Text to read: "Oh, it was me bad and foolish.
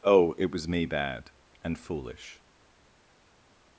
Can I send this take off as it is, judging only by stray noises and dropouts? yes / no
yes